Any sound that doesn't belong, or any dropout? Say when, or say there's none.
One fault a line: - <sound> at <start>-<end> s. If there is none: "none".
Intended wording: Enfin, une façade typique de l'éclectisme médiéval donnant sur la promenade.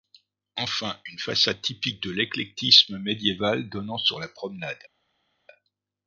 none